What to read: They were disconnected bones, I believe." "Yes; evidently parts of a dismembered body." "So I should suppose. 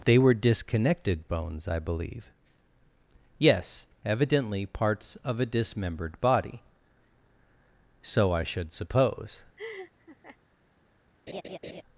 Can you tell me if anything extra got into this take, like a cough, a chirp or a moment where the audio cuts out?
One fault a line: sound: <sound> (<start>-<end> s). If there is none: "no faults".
sound: laugh (9.6-10.4 s)
sound: laugh (11.3-11.8 s)